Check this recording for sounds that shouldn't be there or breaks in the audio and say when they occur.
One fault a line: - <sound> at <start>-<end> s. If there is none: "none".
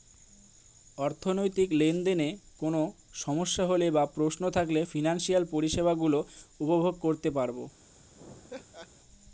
- laugh at 8.1-8.9 s